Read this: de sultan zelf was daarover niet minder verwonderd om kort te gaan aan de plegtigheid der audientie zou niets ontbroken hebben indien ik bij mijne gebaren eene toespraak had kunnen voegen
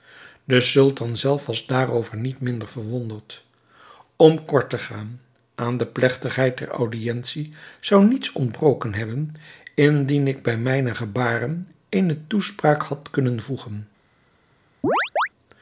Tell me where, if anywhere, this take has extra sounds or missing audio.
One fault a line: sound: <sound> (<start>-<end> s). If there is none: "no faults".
sound: chirp (14.8-15.3 s)